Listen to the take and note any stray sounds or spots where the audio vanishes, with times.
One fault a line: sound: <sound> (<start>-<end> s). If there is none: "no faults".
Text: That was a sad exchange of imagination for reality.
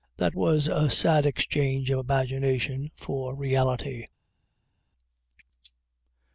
no faults